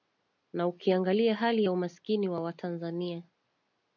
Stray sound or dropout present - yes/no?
no